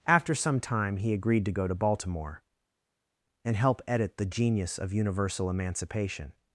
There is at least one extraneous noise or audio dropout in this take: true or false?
false